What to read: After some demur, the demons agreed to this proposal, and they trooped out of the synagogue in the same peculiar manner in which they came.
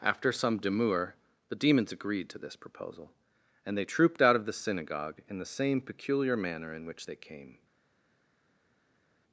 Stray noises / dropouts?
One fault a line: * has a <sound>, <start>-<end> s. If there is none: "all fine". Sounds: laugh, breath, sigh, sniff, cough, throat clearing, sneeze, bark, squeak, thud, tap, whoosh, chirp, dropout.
all fine